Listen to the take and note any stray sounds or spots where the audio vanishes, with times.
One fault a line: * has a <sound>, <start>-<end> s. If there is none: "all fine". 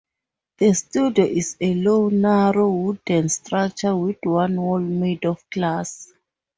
all fine